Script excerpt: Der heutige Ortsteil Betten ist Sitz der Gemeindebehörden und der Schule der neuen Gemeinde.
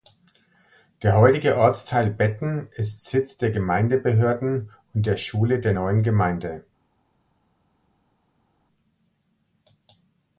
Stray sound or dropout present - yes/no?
no